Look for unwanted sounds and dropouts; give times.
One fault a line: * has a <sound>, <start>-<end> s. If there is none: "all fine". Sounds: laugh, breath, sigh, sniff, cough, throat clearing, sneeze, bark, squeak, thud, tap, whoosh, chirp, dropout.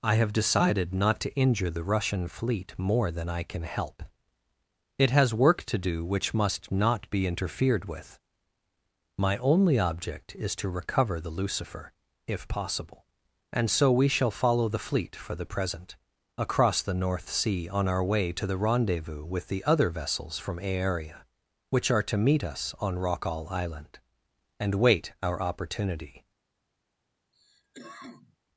* has a cough, 27.3-28.4 s